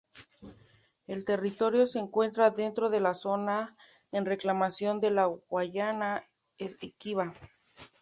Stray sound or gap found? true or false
false